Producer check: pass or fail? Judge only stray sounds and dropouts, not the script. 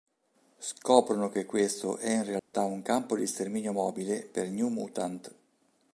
fail